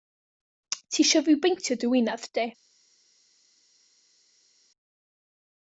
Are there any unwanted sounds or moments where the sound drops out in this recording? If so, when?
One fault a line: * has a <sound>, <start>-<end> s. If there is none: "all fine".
all fine